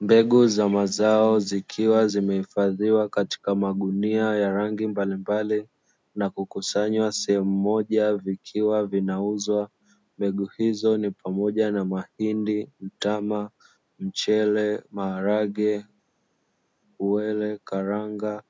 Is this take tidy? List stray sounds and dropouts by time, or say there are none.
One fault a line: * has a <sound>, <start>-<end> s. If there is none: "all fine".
all fine